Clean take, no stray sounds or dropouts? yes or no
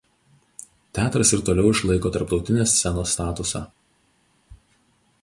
yes